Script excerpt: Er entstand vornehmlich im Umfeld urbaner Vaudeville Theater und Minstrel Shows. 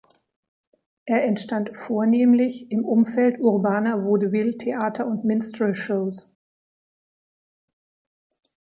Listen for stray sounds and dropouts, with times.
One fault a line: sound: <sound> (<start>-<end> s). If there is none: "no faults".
no faults